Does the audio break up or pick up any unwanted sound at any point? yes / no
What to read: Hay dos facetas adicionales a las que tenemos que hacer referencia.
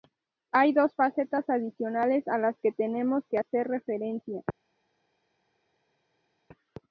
no